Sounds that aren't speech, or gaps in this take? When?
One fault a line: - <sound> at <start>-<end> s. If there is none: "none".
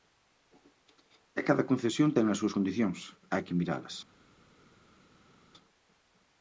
none